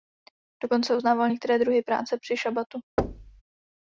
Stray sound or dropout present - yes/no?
yes